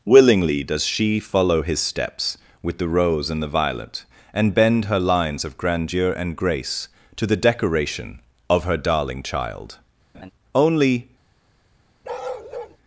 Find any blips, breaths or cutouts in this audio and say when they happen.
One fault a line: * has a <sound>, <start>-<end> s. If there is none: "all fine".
* has a laugh, 10.1-10.3 s
* has a bark, 12.0-12.8 s